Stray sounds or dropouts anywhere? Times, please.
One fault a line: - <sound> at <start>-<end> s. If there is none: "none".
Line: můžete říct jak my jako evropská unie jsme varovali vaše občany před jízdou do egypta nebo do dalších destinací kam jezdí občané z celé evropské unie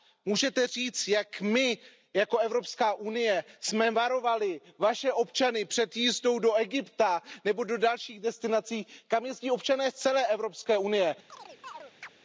- chirp at 11.3-12.1 s